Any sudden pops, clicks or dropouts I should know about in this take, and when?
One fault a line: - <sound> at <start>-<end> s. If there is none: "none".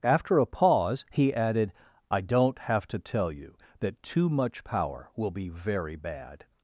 none